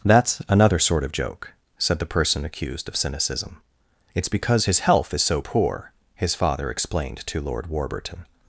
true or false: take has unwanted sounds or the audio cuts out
false